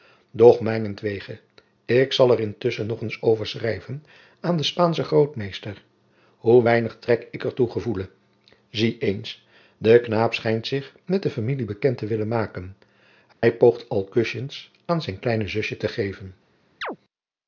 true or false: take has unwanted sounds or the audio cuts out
true